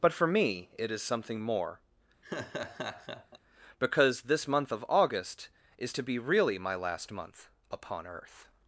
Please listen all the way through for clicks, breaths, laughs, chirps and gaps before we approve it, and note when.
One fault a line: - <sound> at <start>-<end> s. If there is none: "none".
- laugh at 2.2-3.4 s